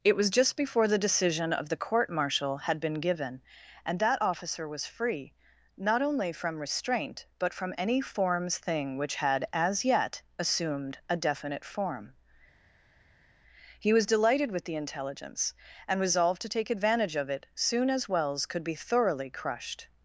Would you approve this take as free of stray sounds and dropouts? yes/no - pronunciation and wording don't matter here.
yes